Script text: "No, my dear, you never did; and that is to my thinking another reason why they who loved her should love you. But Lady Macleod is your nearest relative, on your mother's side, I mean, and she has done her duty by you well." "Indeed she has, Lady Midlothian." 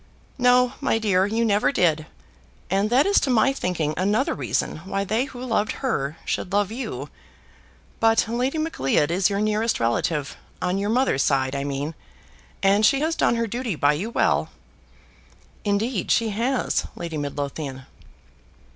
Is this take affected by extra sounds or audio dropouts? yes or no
no